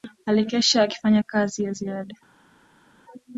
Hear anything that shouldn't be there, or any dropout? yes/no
no